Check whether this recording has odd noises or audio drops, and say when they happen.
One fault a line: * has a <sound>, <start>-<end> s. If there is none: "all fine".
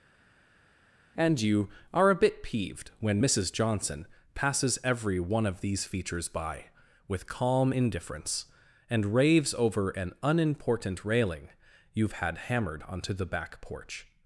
all fine